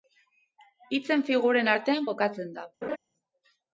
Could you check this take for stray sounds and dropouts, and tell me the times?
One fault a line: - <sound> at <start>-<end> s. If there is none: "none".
- laugh at 2.8-3.0 s